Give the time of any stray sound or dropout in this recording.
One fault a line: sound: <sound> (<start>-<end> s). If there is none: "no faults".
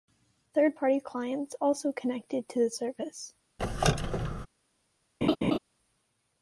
sound: squeak (3.6-4.5 s)
sound: laugh (5.2-5.6 s)